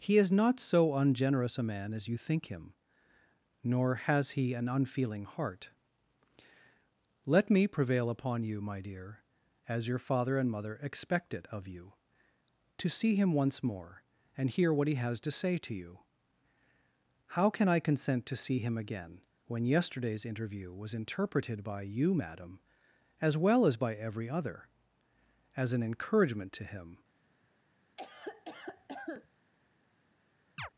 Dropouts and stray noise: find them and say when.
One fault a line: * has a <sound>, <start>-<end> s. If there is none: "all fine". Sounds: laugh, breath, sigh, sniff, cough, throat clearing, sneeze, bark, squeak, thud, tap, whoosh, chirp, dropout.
* has a cough, 28.0-29.3 s
* has a chirp, 30.6-30.7 s